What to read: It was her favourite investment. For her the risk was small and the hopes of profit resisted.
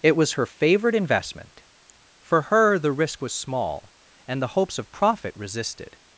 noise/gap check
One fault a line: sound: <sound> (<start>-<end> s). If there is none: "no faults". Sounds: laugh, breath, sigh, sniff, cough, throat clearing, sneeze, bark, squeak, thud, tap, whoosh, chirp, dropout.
no faults